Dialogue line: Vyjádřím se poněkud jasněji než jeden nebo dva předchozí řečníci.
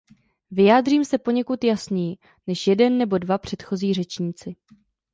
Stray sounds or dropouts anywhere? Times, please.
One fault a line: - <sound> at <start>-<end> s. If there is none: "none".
none